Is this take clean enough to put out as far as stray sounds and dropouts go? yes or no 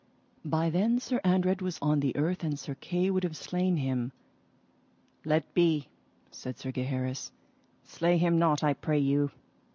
yes